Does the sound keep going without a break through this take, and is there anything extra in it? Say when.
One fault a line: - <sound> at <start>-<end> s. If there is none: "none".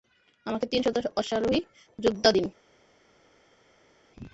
none